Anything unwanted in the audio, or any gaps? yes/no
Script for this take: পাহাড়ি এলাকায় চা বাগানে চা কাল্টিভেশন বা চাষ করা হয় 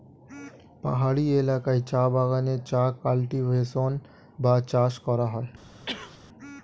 yes